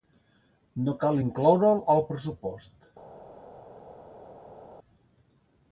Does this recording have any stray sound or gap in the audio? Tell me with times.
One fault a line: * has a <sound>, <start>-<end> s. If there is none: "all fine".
all fine